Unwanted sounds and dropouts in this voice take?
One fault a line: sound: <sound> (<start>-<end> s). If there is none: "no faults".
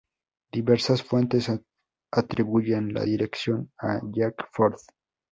no faults